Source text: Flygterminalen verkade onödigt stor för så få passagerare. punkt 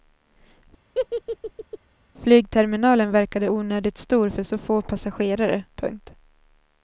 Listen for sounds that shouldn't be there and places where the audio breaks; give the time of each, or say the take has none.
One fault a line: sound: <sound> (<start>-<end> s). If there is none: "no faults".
sound: laugh (0.9-1.8 s)